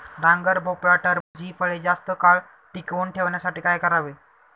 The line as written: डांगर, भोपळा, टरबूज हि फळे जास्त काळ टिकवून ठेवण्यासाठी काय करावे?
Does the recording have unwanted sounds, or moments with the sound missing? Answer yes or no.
yes